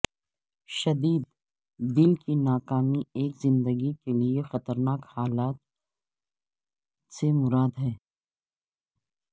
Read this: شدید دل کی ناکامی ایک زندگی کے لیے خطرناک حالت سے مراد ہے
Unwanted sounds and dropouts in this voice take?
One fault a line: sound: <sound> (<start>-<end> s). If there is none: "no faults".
no faults